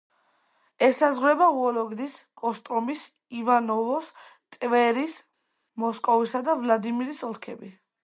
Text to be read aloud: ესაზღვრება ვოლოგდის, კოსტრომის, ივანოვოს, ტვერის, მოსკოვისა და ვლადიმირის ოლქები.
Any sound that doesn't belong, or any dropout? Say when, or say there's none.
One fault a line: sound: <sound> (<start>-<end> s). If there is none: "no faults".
no faults